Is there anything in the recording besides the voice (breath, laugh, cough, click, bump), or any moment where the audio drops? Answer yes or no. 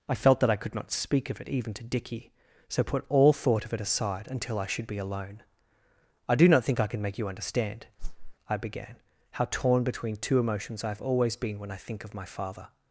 yes